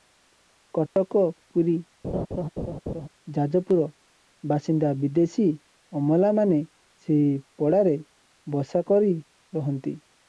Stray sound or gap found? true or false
true